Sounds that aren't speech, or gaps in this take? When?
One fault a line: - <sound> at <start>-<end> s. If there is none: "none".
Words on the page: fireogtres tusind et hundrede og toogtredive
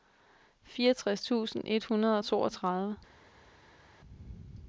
none